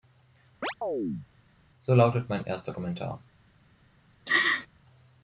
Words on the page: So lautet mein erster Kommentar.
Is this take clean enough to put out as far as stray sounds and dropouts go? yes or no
no